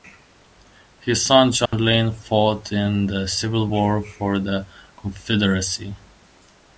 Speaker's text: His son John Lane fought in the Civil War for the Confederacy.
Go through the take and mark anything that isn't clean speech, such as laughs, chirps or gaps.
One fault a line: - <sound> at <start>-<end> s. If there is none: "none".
- dropout at 1.7-1.7 s